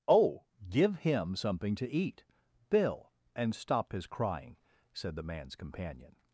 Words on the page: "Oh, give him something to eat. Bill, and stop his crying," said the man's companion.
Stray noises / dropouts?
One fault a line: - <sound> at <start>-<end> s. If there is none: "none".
none